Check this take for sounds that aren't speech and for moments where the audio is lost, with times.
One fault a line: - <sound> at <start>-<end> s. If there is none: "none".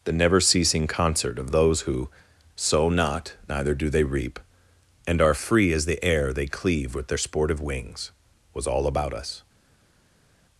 none